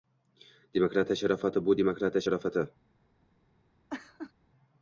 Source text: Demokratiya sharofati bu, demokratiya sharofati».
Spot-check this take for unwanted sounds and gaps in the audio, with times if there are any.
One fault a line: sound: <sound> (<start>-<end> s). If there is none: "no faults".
sound: laugh (3.9-4.3 s)